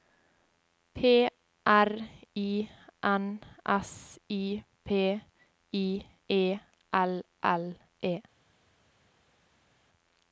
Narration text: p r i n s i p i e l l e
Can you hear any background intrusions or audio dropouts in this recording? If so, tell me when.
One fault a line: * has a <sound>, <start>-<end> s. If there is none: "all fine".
all fine